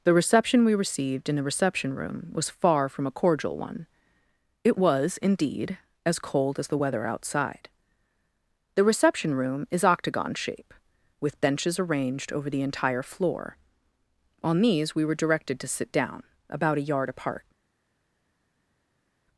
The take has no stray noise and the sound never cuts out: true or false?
true